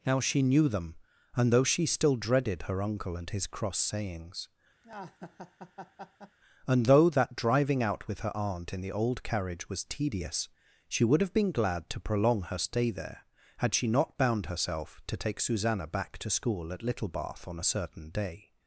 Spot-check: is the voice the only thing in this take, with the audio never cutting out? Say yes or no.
no